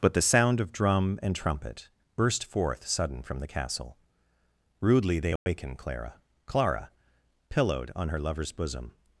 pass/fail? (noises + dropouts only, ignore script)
fail